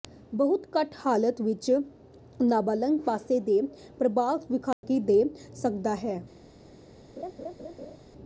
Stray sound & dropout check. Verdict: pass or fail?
fail